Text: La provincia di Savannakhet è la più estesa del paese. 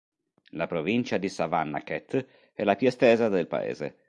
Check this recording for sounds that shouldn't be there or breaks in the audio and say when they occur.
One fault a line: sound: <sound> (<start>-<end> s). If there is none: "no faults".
no faults